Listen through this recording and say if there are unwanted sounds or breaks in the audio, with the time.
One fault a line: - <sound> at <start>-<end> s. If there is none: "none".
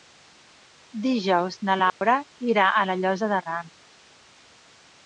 - dropout at 1.9-2.0 s